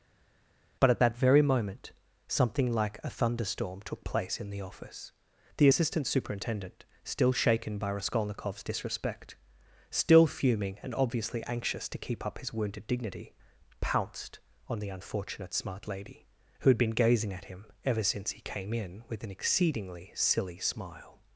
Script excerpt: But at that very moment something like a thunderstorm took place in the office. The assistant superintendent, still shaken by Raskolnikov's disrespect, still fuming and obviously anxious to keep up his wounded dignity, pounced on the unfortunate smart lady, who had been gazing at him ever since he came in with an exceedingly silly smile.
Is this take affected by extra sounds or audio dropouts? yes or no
no